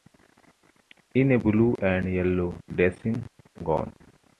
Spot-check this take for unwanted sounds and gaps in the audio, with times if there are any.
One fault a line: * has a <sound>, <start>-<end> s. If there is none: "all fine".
all fine